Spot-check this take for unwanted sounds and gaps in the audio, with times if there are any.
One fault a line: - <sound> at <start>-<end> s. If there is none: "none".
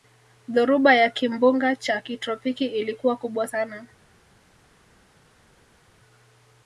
none